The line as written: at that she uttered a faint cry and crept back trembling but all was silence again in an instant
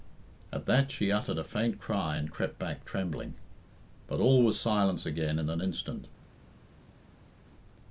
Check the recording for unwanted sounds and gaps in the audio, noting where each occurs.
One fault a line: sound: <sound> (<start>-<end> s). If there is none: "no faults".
no faults